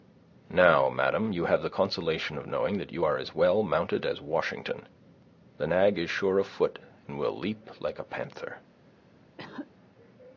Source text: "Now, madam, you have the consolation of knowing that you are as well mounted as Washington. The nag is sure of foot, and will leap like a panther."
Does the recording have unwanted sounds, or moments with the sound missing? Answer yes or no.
yes